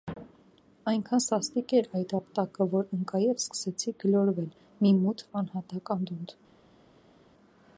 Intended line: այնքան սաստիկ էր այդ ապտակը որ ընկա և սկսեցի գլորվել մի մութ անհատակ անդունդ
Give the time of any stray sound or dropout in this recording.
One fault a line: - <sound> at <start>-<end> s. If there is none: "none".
none